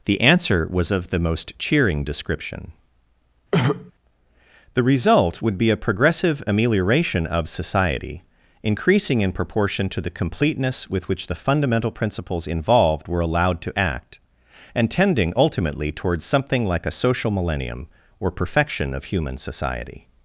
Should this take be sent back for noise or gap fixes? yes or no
yes